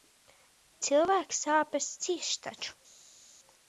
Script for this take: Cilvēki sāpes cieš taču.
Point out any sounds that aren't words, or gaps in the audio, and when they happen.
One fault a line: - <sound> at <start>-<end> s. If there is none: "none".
none